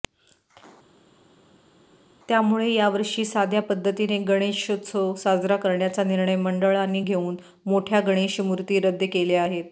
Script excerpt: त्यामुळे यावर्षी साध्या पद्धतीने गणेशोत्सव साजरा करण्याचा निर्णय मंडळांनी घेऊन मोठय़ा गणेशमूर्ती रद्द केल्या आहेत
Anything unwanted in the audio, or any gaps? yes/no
no